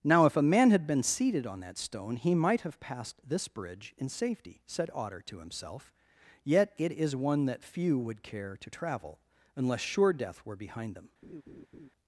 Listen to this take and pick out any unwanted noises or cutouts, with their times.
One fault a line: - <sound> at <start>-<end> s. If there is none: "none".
- laugh at 11.2-11.9 s